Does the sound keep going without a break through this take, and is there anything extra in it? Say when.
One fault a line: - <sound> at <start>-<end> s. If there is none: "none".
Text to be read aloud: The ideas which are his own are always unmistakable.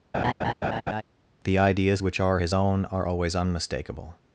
- laugh at 0.1-1.0 s